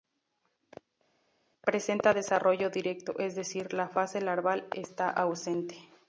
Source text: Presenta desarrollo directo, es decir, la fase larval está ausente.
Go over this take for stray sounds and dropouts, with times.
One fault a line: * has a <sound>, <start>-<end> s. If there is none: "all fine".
all fine